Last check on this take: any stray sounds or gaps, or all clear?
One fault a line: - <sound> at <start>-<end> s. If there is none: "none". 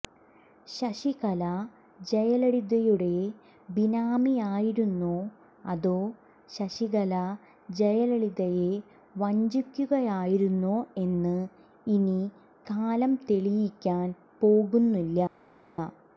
none